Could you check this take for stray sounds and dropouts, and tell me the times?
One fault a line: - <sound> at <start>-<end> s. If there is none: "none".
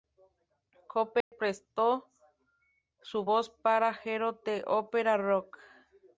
- dropout at 1.2-1.3 s